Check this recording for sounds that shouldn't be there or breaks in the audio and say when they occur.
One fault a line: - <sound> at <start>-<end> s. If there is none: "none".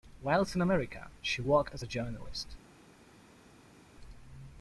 none